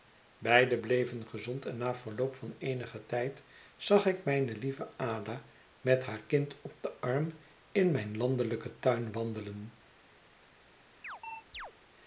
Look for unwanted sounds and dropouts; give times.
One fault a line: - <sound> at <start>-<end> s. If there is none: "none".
- chirp at 11.0-11.7 s